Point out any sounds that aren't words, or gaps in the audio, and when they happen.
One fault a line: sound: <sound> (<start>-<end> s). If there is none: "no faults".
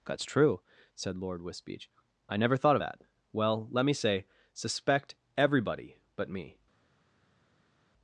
no faults